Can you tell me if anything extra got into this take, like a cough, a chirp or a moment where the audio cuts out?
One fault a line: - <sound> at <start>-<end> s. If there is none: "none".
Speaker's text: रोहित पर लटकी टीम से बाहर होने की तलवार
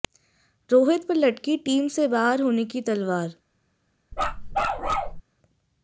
- bark at 4.1-5.2 s